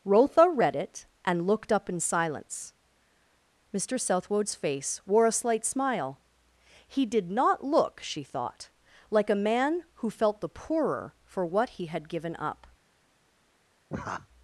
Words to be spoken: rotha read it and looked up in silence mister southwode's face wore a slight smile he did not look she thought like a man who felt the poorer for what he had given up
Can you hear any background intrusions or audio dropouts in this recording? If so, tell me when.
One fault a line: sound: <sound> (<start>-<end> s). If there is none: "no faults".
sound: laugh (13.9-14.3 s)